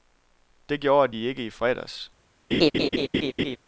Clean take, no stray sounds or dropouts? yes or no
no